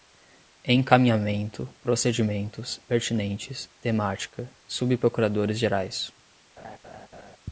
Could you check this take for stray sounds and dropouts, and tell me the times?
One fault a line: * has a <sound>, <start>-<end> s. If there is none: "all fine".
* has a laugh, 6.6-7.4 s